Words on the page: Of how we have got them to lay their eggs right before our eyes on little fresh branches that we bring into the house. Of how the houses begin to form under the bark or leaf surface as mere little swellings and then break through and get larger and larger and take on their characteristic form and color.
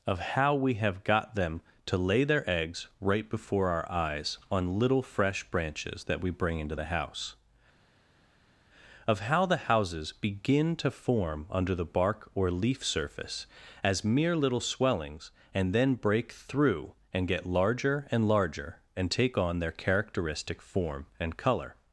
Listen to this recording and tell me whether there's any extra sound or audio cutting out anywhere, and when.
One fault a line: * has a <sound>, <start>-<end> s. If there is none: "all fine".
all fine